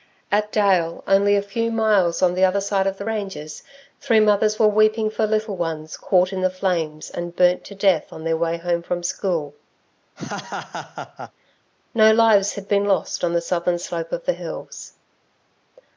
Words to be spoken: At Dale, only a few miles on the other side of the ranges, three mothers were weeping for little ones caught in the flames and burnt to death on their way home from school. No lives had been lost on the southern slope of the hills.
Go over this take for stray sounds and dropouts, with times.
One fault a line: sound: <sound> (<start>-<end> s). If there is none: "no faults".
sound: laugh (10.2-11.3 s)